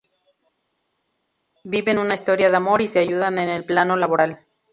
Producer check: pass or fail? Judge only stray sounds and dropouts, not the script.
pass